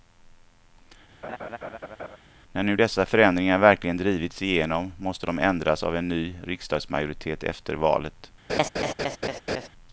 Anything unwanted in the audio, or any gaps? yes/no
yes